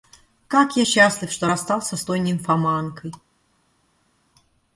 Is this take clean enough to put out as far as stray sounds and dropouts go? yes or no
yes